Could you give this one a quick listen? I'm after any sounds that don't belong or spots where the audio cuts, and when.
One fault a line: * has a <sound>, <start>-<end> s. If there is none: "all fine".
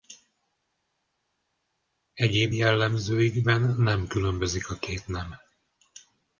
all fine